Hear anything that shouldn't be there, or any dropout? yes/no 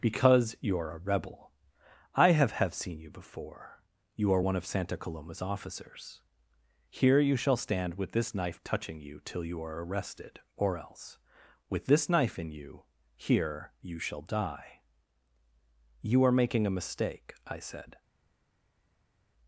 no